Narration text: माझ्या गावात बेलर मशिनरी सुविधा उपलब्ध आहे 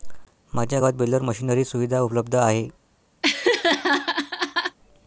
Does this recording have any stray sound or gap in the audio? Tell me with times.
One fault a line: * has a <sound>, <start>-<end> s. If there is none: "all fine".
* has a laugh, 3.2-4.8 s